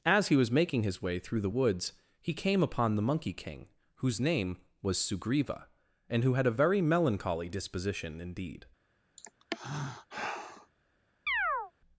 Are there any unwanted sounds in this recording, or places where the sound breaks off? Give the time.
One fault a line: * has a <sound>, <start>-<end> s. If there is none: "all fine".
* has a sigh, 9.2-10.7 s
* has a chirp, 11.3-11.7 s